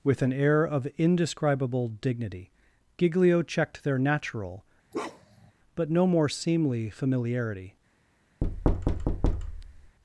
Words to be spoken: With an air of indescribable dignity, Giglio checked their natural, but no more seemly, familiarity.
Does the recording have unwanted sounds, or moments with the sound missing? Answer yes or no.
yes